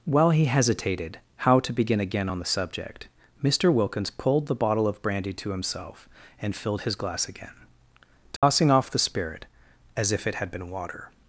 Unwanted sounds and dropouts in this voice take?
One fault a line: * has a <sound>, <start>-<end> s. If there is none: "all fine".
* has a dropout, 8.4-8.4 s